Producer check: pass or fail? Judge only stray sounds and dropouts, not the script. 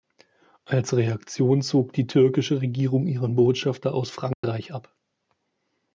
fail